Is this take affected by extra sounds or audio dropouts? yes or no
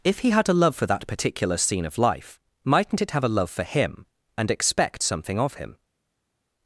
no